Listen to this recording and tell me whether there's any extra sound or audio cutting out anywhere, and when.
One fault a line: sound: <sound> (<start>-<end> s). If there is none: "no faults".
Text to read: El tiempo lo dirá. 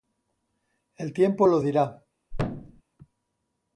sound: thud (2.3-2.8 s)